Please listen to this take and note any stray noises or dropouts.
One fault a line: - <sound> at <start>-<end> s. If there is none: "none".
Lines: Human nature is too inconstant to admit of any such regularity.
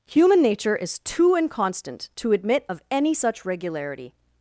none